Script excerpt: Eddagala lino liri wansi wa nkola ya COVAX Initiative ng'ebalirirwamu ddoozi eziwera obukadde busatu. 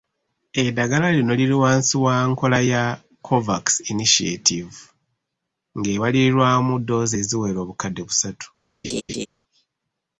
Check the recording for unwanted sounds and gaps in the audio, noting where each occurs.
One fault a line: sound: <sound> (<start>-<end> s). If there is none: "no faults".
sound: laugh (8.8-9.3 s)